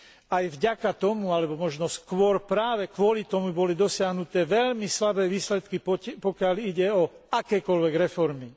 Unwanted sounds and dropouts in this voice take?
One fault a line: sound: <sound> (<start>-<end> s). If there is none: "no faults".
no faults